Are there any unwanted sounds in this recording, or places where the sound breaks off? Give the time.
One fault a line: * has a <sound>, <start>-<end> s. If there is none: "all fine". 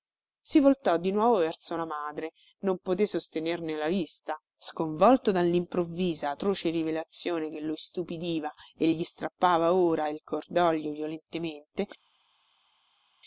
all fine